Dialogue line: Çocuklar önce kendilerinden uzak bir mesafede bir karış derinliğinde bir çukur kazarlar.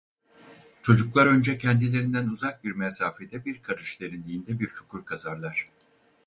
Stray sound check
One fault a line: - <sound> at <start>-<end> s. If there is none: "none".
none